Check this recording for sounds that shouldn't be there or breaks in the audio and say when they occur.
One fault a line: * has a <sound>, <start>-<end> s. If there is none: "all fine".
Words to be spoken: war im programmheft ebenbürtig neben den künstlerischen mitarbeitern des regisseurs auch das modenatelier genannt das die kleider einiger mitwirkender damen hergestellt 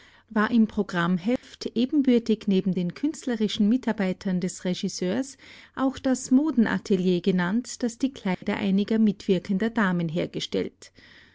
* has a dropout, 1.4-1.4 s
* has a dropout, 8.3-8.4 s